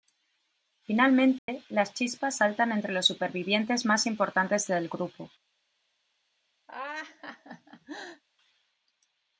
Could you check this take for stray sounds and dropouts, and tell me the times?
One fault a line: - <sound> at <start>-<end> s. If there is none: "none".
- dropout at 1.4-1.5 s
- laugh at 6.7-8.2 s